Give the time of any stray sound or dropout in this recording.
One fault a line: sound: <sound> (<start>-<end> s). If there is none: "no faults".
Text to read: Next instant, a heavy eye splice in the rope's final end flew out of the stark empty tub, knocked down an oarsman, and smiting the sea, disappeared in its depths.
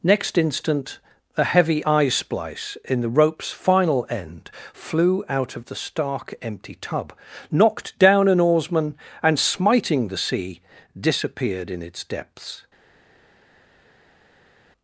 no faults